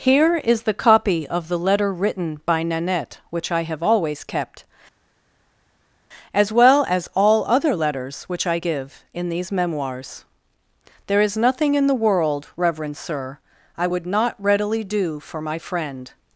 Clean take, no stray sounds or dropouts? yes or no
yes